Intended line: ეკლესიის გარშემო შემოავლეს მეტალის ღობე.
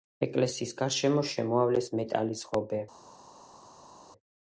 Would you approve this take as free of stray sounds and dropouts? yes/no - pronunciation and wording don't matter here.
yes